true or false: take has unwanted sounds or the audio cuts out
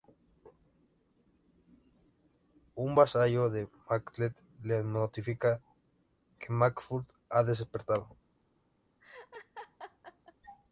true